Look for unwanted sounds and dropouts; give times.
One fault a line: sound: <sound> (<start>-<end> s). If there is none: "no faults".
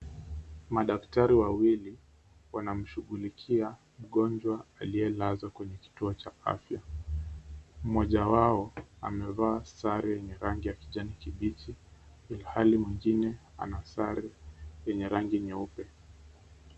no faults